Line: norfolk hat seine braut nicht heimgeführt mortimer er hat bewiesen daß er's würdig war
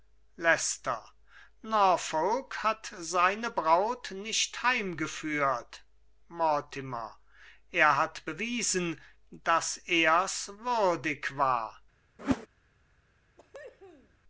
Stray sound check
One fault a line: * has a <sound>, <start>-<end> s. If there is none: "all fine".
* has a whoosh, 12.2-12.5 s
* has a cough, 13.4-14.2 s